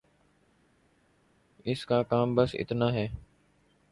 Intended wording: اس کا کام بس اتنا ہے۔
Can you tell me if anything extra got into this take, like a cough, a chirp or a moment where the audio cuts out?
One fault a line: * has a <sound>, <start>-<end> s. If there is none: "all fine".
all fine